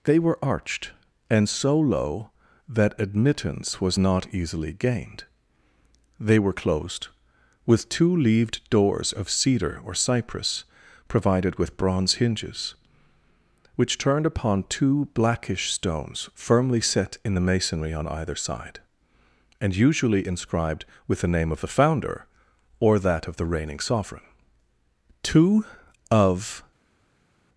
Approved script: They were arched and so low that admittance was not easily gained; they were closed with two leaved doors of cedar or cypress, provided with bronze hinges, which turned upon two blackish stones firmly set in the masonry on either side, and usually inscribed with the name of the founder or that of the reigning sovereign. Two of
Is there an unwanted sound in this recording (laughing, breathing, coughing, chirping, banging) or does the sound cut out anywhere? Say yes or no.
no